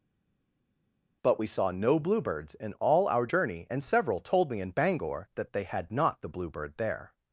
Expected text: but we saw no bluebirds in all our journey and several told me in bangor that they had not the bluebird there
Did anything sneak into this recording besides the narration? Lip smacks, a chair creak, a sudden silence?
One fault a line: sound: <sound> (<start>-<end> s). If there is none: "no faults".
no faults